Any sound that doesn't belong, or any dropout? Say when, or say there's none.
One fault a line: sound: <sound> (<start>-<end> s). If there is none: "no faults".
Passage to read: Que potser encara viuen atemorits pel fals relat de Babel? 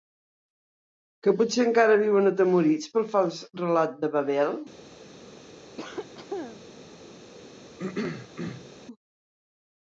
sound: cough (5.8-6.7 s)
sound: throat clearing (7.8-8.7 s)